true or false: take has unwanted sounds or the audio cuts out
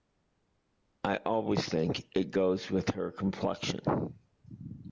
false